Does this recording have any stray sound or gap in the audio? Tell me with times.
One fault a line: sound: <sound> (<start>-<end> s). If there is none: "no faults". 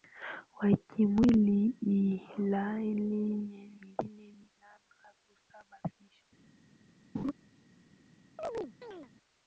sound: laugh (7.1-7.3 s)
sound: chirp (8.4-9.1 s)